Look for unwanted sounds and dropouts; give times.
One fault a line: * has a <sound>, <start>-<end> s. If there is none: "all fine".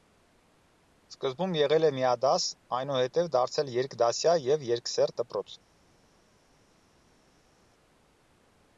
all fine